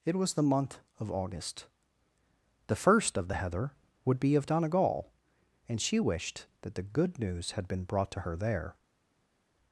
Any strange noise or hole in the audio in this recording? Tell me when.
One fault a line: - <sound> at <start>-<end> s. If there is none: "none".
none